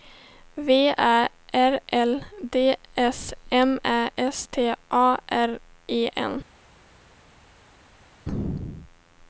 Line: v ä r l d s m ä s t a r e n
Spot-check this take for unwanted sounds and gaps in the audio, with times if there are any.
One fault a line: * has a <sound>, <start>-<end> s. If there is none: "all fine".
all fine